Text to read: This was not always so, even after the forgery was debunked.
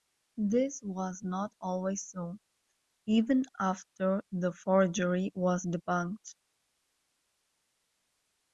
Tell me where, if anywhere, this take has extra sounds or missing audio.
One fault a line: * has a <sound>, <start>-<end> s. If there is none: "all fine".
all fine